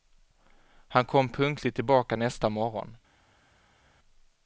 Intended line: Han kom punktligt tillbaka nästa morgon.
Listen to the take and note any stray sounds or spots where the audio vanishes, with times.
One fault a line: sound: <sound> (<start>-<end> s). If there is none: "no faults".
no faults